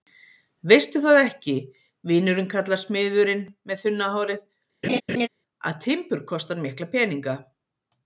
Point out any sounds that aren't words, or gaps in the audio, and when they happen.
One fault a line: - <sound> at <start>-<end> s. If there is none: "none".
- laugh at 4.8-5.3 s